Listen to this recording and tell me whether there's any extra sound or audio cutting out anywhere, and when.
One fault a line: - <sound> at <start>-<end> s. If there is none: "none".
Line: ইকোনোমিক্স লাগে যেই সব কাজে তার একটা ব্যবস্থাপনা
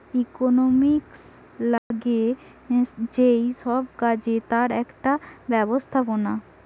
- dropout at 1.8-1.9 s